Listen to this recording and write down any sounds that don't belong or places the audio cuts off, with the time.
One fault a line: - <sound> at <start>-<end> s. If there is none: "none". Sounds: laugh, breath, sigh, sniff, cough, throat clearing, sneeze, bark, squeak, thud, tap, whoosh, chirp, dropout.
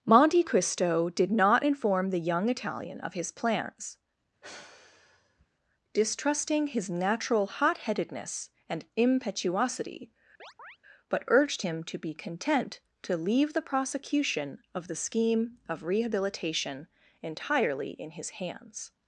- sigh at 4.4-5.5 s
- chirp at 10.4-10.8 s